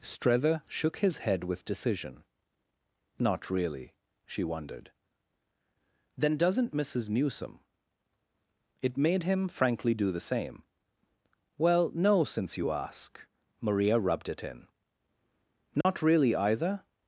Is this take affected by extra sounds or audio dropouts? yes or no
yes